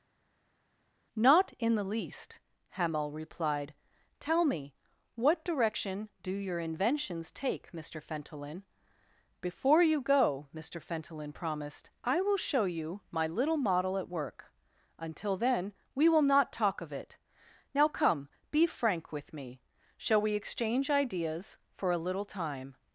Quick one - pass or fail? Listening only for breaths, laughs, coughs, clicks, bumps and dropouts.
pass